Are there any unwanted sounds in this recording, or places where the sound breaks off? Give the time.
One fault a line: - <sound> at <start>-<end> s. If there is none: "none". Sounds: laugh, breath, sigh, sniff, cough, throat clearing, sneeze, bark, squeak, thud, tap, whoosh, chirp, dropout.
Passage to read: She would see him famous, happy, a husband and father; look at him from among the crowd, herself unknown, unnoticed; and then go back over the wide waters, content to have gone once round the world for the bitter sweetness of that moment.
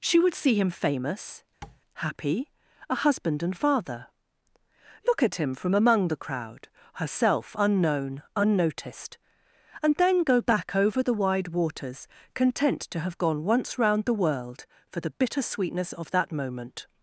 - tap at 1.6-1.8 s